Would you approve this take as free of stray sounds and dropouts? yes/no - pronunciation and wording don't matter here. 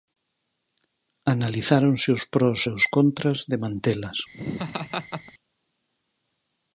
no